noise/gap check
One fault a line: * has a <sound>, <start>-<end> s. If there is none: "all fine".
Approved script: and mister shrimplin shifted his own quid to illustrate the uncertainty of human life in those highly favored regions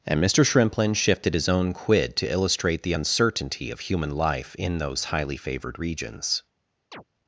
* has a chirp, 6.9-7.0 s